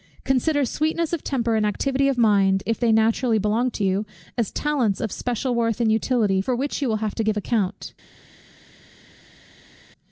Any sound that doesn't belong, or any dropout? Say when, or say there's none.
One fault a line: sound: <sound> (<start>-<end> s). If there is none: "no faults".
no faults